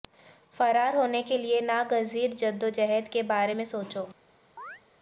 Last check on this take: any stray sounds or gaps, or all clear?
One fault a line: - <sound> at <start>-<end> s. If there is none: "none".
- chirp at 4.6-4.8 s